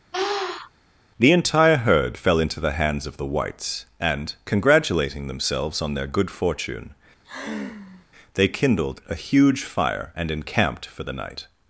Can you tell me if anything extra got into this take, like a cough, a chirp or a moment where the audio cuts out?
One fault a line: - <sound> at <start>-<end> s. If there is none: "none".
- sniff at 0.1-0.7 s
- sigh at 7.2-8.1 s